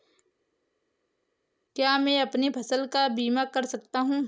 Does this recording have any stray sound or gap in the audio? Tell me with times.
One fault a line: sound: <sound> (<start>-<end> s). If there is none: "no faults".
no faults